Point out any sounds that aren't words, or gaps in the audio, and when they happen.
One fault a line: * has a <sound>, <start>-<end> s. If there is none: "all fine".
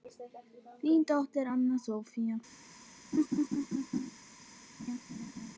* has a laugh, 3.1-4.1 s
* has a laugh, 4.8-5.6 s